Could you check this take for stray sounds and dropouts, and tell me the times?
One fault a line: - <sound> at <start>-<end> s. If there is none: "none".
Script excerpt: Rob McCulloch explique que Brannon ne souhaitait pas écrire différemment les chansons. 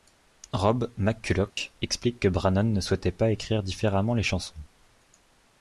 - dropout at 1.5-1.6 s